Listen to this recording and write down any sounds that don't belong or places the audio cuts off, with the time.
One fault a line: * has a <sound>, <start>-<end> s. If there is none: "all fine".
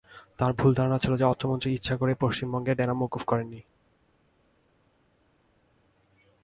all fine